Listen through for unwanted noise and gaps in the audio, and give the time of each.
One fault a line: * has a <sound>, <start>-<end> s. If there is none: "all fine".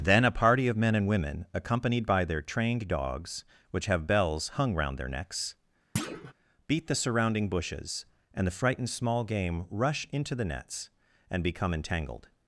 * has a thud, 6.0-6.3 s